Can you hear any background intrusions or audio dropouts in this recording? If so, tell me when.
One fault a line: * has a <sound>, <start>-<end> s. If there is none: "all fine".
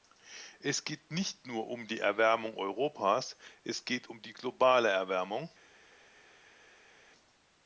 all fine